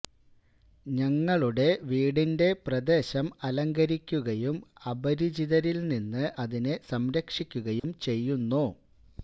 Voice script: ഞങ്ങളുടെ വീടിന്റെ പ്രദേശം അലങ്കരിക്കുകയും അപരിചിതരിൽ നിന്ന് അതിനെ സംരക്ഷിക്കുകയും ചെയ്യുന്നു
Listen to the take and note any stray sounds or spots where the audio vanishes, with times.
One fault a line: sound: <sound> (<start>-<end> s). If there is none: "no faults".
sound: dropout (7.8-7.8 s)